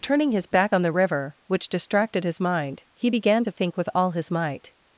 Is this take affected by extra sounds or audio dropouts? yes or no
no